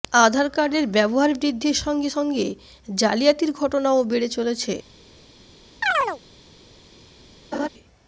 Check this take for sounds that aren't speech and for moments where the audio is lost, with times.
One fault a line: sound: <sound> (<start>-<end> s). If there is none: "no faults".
sound: chirp (5.8-6.2 s)
sound: laugh (7.5-7.7 s)